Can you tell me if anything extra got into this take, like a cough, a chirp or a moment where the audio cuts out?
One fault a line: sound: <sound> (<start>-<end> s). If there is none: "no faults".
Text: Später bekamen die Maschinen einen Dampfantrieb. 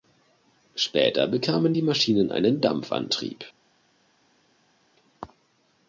no faults